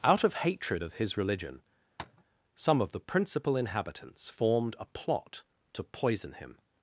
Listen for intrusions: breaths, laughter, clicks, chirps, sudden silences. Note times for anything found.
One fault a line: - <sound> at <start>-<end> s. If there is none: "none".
- tap at 2.0-2.2 s